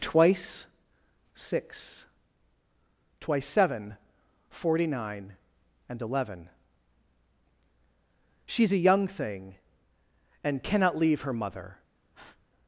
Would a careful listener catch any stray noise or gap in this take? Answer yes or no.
yes